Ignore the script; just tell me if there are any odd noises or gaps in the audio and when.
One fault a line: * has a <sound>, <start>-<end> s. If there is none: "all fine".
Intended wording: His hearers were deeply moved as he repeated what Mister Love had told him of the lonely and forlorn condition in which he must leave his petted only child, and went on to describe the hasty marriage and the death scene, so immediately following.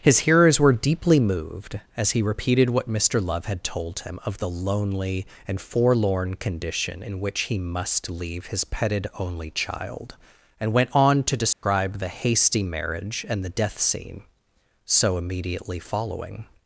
* has a dropout, 11.5-11.6 s